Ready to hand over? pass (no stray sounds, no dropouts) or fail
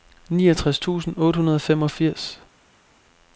pass